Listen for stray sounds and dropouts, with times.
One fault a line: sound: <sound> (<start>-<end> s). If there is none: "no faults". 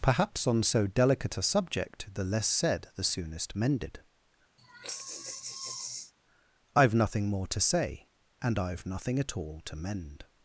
sound: sigh (4.6-6.1 s)